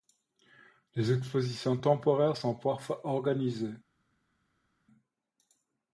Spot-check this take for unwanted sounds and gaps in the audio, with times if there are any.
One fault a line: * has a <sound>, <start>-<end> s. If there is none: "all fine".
all fine